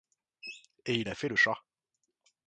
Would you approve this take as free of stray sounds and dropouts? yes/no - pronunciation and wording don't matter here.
yes